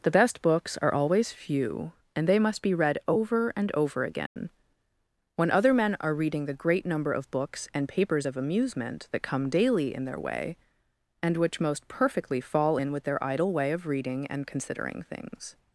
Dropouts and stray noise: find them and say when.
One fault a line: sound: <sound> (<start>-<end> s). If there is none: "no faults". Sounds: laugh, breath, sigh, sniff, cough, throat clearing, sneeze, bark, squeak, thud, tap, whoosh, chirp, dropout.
sound: dropout (4.3-4.4 s)